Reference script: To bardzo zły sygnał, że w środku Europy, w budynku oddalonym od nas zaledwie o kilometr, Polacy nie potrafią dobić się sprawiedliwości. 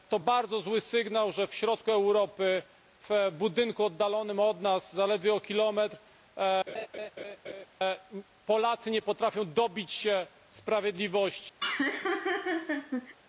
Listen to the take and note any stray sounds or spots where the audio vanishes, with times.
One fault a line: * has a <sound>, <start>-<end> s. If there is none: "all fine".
* has a laugh, 6.7-7.7 s
* has a laugh, 11.6-13.2 s